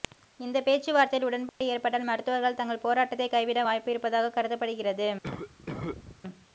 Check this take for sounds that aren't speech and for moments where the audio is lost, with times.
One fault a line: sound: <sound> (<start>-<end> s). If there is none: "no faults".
sound: dropout (1.5-1.6 s)
sound: cough (5.2-6.2 s)